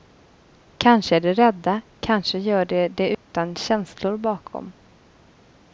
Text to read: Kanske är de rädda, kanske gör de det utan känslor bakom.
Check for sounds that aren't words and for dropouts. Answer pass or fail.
fail